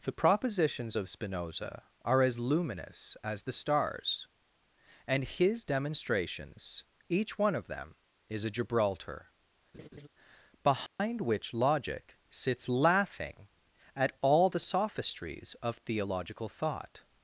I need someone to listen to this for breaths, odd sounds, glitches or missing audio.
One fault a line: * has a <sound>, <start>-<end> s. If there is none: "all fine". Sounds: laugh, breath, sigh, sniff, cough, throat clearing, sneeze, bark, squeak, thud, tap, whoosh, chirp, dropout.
* has a laugh, 9.7-10.1 s
* has a dropout, 10.9-11.0 s